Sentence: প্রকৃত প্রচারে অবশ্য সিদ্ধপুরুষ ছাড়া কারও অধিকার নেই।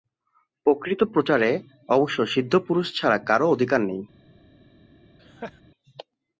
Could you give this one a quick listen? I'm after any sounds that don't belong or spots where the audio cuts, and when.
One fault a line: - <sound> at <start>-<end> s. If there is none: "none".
- laugh at 5.2-5.6 s